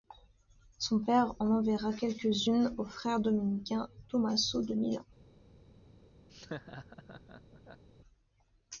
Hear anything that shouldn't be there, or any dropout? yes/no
yes